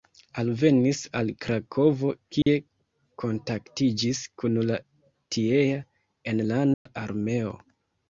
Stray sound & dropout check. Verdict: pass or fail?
fail